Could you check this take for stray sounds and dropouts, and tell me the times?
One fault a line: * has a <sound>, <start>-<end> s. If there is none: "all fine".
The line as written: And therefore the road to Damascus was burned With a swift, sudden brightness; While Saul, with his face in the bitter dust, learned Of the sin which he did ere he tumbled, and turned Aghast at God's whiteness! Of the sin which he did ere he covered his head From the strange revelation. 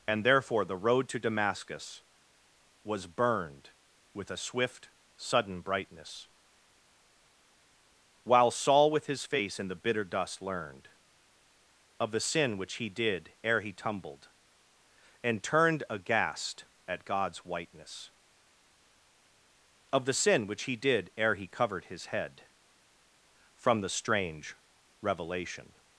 all fine